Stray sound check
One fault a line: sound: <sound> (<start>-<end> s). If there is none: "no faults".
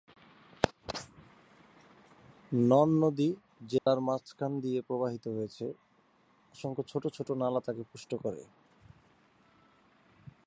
sound: dropout (3.8-3.9 s)